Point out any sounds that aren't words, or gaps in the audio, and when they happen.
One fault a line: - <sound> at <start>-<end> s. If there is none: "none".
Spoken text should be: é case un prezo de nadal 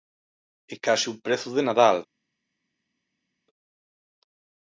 none